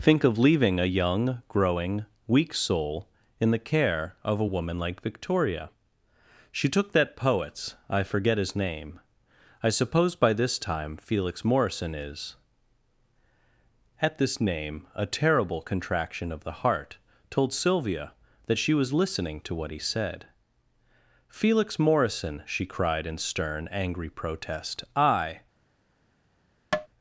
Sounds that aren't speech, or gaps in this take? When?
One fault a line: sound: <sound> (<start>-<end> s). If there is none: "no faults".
sound: tap (26.7-26.9 s)